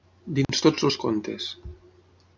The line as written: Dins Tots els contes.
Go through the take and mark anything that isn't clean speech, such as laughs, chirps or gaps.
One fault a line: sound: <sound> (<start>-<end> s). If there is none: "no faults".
sound: dropout (0.4-0.5 s)